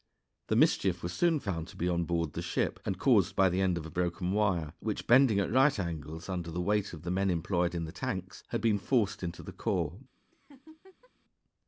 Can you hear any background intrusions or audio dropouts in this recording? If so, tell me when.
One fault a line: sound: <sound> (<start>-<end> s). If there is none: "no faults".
sound: laugh (10.3-11.1 s)